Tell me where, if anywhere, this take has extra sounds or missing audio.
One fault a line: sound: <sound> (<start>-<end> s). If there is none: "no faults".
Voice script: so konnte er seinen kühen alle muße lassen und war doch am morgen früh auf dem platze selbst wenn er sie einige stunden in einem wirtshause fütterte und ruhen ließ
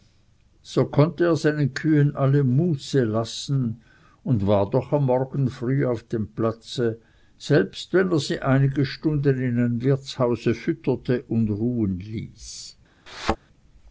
sound: thud (13.1-13.4 s)